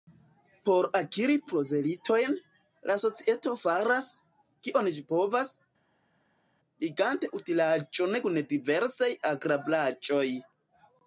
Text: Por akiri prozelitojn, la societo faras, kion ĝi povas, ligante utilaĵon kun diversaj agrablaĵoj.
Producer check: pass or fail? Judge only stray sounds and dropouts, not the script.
pass